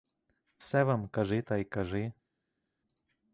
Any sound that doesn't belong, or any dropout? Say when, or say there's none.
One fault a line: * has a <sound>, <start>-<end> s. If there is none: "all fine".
all fine